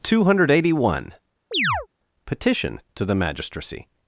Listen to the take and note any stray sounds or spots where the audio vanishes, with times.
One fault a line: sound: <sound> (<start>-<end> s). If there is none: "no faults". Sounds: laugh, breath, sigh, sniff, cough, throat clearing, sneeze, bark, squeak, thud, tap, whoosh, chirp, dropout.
sound: chirp (1.5-1.9 s)